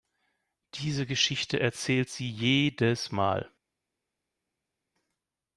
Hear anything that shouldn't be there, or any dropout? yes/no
no